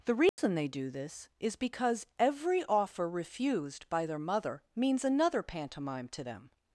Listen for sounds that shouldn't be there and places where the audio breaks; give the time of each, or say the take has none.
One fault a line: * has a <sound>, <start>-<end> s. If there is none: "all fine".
* has a dropout, 0.3-0.4 s